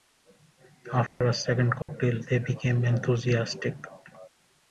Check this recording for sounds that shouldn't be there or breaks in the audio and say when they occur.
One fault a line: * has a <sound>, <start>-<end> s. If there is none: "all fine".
* has a dropout, 1.1-1.2 s
* has a dropout, 1.8-1.9 s